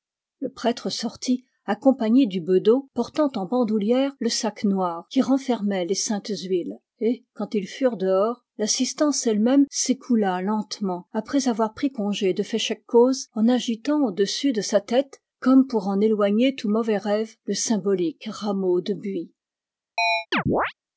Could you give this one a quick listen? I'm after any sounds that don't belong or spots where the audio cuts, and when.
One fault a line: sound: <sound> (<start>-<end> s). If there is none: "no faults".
sound: chirp (20.0-20.7 s)